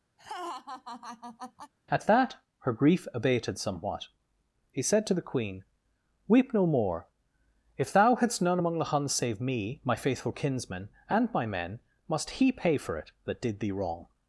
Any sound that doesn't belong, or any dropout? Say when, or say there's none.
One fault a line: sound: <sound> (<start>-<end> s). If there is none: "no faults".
sound: laugh (0.2-1.7 s)